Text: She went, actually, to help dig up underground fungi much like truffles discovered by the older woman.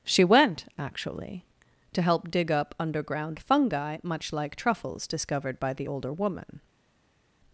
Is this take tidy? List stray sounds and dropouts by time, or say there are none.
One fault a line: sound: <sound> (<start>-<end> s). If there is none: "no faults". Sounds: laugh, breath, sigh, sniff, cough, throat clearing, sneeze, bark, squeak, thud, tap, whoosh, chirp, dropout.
no faults